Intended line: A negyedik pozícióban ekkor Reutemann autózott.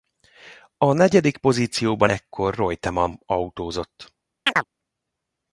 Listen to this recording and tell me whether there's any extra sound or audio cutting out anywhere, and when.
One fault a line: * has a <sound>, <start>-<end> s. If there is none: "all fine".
* has a chirp, 4.5-4.7 s